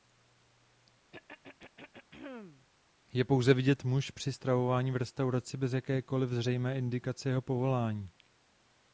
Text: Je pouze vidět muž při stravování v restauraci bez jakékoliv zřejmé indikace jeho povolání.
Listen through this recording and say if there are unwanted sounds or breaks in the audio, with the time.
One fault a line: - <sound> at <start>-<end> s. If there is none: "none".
- throat clearing at 1.1-2.7 s